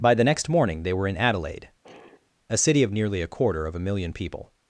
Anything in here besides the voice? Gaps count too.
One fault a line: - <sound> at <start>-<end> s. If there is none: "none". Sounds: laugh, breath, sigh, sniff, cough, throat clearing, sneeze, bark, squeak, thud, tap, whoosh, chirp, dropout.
- sigh at 1.8-2.3 s